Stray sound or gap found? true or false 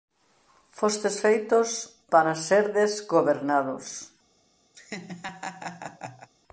true